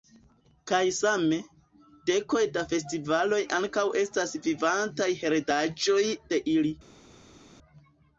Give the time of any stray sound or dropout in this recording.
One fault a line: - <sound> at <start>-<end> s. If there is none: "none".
none